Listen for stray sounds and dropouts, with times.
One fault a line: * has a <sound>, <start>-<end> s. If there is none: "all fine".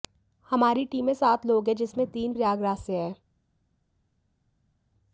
all fine